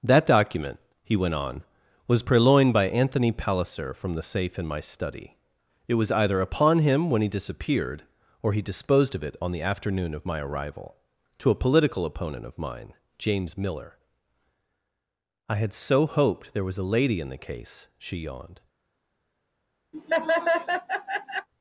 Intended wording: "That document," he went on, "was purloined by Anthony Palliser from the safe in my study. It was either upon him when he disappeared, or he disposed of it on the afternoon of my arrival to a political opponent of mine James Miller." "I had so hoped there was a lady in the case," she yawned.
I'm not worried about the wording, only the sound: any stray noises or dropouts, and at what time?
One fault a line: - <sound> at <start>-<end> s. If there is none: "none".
- laugh at 19.9-21.5 s